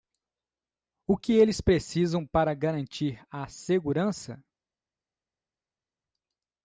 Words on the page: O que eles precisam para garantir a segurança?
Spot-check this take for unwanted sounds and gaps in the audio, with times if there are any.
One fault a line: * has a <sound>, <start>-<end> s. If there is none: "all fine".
all fine